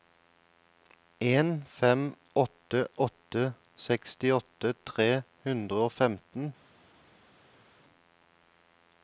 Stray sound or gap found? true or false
false